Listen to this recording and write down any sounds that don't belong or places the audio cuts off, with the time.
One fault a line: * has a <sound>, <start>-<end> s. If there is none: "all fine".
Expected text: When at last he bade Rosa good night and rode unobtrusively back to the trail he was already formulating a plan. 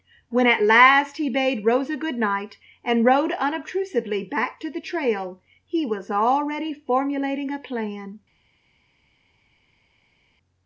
all fine